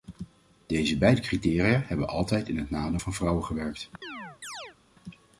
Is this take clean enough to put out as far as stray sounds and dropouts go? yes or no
no